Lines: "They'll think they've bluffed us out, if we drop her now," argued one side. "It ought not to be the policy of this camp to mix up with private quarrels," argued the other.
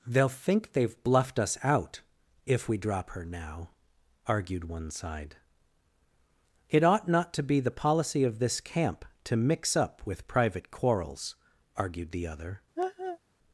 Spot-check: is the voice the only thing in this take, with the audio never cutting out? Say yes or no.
no